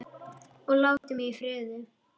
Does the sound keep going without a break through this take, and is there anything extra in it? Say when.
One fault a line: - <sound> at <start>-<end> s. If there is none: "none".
- dropout at 1.0-1.0 s